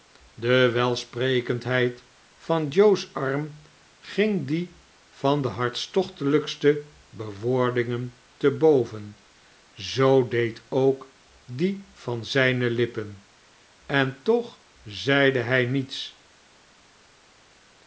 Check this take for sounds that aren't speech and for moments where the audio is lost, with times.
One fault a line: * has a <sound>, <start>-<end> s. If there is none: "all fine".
all fine